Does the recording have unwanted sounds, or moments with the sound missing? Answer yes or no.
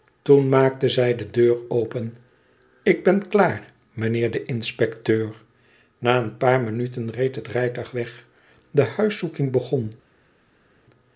no